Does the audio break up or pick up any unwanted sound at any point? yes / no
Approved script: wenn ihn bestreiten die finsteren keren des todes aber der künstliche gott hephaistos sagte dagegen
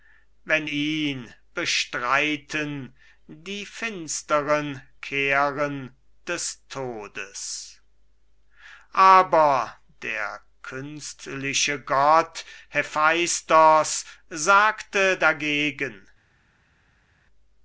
no